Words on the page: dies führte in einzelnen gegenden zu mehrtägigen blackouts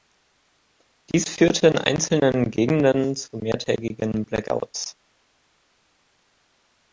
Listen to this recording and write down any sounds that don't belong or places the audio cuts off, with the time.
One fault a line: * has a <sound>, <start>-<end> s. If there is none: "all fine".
all fine